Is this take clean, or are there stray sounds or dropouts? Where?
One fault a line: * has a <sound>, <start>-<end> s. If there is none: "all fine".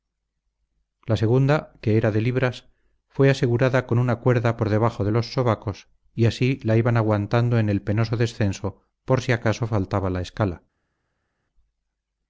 all fine